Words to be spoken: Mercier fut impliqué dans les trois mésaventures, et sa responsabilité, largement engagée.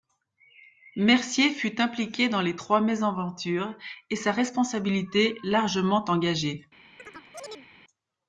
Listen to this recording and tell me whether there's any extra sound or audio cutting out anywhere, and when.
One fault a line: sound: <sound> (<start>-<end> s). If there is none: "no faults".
sound: chirp (7.0-7.7 s)